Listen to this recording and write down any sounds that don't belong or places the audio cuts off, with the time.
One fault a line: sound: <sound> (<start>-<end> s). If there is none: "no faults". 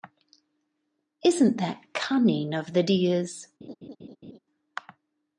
sound: laugh (3.6-4.4 s)